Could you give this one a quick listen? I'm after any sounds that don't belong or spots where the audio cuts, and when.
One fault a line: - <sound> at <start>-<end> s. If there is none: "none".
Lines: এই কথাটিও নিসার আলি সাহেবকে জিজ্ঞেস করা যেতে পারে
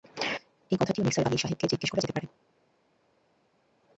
none